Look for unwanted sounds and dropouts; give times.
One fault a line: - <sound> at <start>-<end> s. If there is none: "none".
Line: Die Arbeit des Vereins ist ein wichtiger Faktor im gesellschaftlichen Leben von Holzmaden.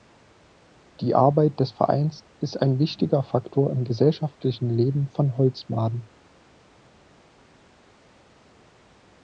none